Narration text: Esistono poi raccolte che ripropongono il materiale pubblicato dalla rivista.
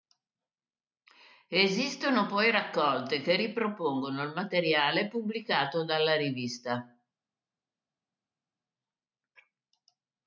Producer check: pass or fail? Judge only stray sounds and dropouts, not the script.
pass